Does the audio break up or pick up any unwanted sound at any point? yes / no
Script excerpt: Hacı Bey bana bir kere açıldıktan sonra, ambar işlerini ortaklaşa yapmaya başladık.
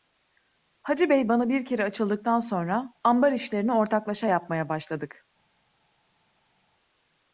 no